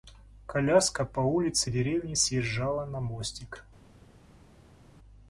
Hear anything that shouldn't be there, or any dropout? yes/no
no